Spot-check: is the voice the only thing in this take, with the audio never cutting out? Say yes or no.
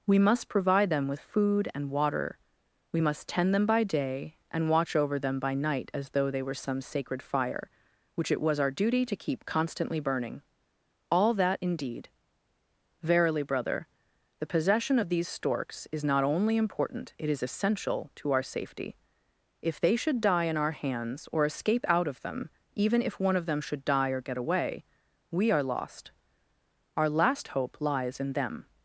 yes